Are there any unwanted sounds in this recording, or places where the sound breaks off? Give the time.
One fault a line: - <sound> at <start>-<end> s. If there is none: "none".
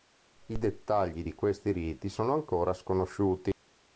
none